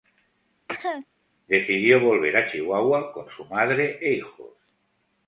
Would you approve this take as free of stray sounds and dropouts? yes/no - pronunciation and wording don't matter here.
no